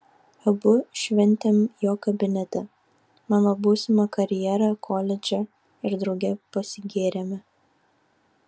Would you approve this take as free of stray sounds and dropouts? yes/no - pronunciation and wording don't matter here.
yes